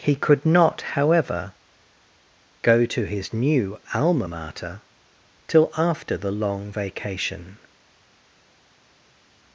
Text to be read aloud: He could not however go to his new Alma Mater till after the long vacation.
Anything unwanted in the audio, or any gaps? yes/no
no